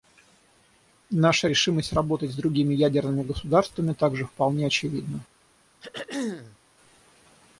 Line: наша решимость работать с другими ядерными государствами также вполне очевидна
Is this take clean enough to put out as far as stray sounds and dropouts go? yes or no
no